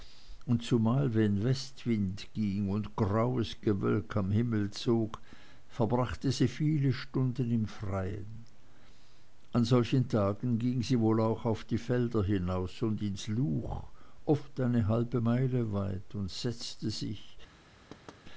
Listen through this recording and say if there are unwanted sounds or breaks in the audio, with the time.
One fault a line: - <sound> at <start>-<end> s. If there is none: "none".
- thud at 17.9-18.2 s